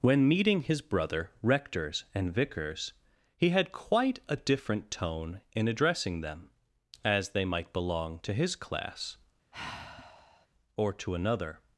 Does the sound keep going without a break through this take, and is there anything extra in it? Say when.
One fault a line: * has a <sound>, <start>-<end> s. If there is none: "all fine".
* has a sigh, 9.5-10.5 s